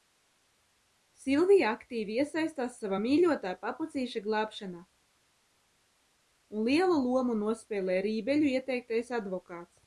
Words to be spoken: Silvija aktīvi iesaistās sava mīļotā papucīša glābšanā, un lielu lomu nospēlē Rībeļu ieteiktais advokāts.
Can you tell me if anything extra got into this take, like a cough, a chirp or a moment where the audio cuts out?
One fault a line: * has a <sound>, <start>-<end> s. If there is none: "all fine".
all fine